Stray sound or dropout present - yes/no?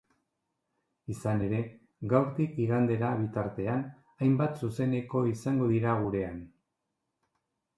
no